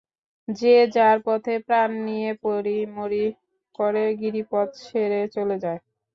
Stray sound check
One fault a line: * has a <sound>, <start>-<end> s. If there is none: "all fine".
all fine